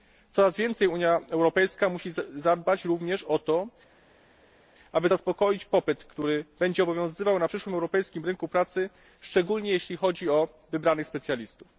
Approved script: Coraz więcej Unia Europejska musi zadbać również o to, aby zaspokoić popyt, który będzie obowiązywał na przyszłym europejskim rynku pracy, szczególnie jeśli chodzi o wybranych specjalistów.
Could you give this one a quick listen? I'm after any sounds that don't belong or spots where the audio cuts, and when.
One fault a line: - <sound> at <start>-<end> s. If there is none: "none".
none